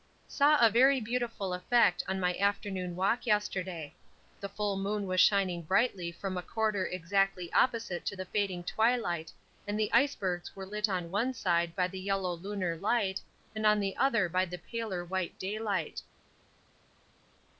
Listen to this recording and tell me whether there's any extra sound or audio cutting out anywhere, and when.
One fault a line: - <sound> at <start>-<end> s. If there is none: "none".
none